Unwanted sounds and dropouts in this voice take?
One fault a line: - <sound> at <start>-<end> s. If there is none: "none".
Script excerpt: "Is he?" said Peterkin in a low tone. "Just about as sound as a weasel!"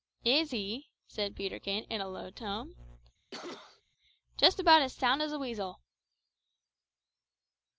- cough at 3.3-3.8 s